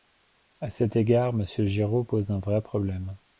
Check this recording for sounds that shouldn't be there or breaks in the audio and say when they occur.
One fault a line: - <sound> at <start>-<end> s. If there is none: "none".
none